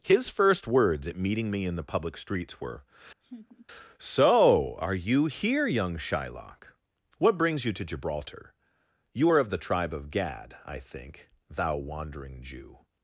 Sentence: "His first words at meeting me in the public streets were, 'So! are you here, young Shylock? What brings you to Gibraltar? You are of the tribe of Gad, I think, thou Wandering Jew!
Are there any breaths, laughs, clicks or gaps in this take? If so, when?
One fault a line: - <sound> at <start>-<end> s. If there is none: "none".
- laugh at 3.2-3.7 s